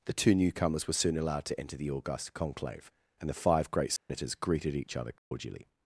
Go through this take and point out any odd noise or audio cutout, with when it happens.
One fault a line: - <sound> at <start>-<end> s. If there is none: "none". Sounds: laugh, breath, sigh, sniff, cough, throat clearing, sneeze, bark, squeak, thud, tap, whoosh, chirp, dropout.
- dropout at 4.0-4.1 s
- dropout at 5.2-5.3 s